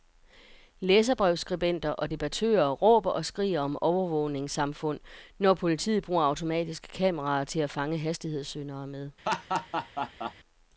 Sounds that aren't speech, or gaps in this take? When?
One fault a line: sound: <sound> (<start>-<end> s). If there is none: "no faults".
sound: laugh (9.3-10.3 s)